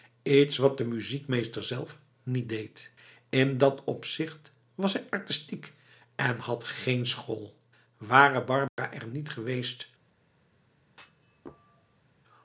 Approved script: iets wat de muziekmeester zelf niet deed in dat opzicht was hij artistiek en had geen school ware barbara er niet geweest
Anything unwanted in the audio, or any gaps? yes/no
yes